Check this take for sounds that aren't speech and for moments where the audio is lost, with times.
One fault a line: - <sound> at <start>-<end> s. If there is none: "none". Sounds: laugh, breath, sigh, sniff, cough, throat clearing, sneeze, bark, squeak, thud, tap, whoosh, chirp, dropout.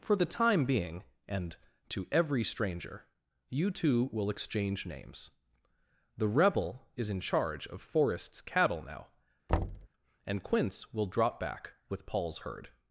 - thud at 9.5-9.9 s